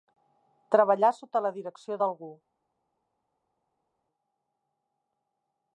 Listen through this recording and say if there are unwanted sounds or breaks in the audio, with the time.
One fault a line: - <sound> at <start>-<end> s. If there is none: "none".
none